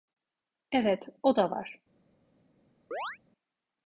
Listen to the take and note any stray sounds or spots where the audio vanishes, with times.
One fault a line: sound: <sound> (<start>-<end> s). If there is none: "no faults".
sound: chirp (2.9-3.2 s)